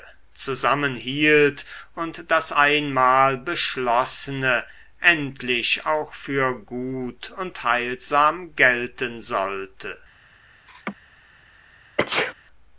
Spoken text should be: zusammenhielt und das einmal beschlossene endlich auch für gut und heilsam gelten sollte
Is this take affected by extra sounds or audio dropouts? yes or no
yes